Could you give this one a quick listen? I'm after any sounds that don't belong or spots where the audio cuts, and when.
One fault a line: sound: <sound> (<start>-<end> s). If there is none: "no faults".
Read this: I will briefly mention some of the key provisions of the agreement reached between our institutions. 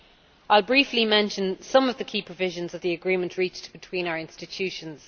no faults